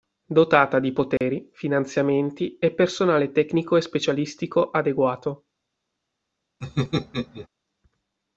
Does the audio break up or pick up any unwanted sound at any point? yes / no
yes